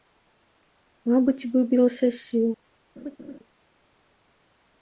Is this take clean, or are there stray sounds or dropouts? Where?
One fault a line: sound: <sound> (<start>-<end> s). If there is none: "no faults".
sound: laugh (3.0-3.4 s)